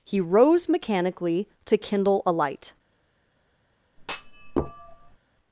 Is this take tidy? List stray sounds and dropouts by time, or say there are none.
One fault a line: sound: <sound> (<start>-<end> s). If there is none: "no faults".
sound: thud (4.0-5.2 s)